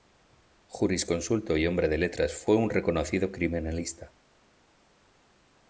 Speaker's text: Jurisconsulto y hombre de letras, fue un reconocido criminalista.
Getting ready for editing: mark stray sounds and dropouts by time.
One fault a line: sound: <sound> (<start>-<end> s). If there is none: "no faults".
no faults